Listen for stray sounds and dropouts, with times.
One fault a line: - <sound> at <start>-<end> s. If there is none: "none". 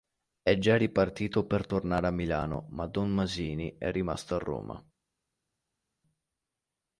none